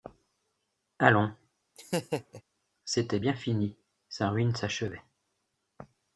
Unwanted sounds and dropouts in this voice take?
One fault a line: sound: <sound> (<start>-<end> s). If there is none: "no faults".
sound: laugh (1.8-2.4 s)